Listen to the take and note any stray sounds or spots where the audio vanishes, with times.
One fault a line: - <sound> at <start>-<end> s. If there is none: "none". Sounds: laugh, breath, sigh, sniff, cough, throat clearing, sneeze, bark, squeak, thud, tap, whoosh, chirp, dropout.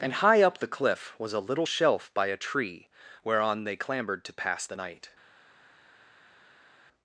none